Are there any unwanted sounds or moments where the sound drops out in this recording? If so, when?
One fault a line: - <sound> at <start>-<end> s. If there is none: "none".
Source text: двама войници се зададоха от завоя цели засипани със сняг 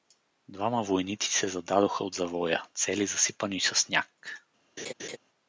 - laugh at 4.8-5.2 s